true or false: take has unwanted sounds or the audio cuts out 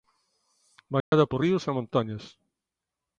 true